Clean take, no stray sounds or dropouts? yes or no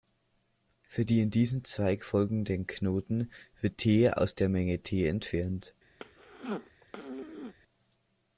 no